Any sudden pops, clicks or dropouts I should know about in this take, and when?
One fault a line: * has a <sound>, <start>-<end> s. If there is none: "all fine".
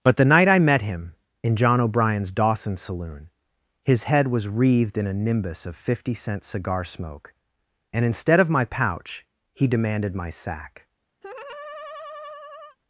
* has a laugh, 11.2-12.8 s